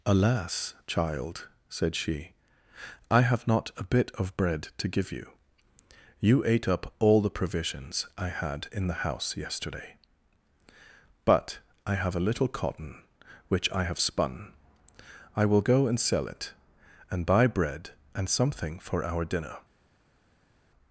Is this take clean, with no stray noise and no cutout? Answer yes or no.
yes